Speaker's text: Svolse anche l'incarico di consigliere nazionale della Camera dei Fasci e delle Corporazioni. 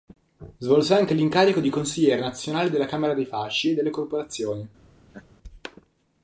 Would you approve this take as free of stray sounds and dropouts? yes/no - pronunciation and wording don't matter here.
no